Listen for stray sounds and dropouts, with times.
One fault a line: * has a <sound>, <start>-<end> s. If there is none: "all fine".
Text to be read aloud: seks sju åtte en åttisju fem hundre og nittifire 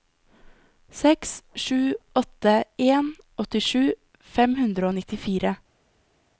all fine